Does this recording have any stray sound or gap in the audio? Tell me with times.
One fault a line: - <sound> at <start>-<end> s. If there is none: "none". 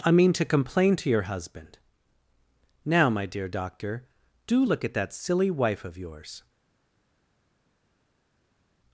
none